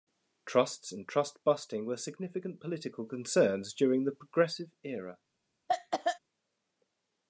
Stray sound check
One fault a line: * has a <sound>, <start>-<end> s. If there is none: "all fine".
* has a cough, 5.7-6.2 s